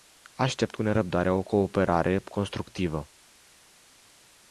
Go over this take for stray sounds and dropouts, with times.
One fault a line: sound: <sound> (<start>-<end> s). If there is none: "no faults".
no faults